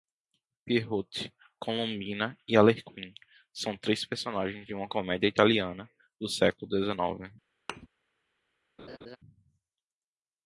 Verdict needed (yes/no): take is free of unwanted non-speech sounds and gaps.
no